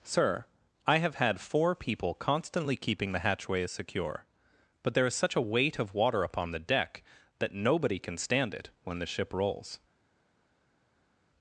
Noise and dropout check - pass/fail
pass